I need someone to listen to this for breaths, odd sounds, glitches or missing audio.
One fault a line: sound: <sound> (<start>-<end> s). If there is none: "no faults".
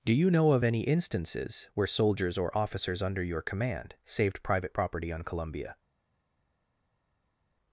no faults